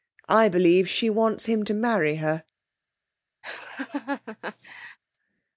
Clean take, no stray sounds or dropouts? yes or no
no